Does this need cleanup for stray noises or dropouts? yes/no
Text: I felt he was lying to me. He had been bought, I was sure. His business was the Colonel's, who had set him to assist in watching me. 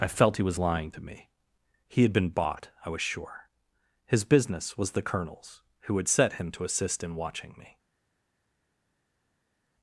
no